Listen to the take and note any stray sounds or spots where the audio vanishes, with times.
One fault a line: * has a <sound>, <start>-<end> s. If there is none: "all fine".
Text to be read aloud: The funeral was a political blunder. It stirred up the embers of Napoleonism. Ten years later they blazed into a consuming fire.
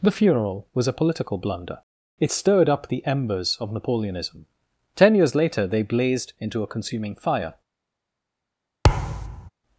* has a thud, 8.8-9.5 s